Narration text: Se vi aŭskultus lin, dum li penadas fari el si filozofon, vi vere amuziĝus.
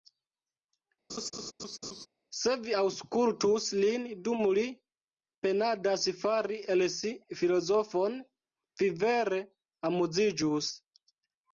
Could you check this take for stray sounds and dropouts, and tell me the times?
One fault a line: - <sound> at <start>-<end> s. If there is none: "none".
- laugh at 1.1-2.1 s